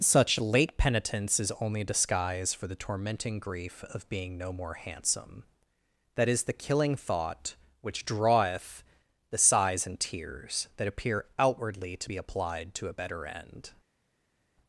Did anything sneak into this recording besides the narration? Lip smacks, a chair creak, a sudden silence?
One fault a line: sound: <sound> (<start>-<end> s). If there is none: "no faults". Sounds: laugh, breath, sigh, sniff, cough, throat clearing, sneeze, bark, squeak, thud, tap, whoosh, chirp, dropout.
no faults